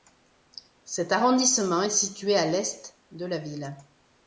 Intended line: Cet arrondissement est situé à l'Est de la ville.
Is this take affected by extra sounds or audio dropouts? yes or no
no